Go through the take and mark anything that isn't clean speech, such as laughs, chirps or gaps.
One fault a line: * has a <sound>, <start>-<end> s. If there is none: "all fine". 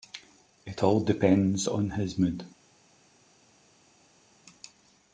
all fine